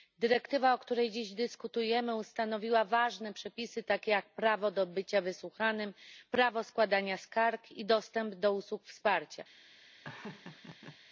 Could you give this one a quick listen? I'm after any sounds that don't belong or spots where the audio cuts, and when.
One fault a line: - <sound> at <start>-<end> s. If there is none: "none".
- laugh at 10.0-11.0 s